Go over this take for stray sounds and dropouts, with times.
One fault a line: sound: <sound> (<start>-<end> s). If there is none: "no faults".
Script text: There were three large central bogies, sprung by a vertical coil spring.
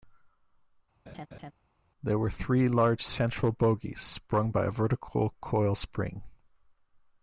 sound: laugh (1.1-1.5 s)